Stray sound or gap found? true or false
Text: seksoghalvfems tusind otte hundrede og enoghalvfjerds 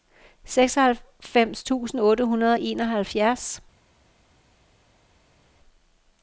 false